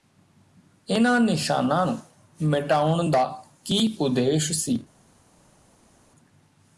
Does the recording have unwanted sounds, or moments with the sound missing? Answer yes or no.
no